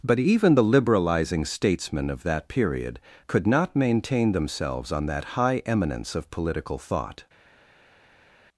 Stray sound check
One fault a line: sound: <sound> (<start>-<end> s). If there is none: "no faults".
no faults